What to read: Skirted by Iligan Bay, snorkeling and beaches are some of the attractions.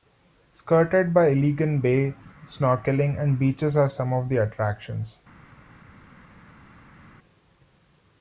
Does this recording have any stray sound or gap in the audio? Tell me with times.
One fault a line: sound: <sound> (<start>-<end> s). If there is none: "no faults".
no faults